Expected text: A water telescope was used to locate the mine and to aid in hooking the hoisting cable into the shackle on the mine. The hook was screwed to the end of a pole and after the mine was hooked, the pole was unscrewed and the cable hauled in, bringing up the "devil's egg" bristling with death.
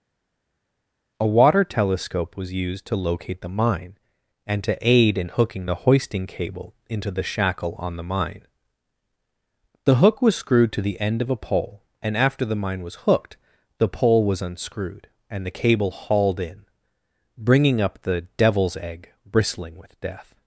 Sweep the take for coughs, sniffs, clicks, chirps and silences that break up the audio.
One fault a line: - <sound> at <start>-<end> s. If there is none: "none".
none